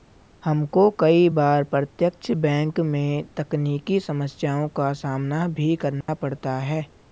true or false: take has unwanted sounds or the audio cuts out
true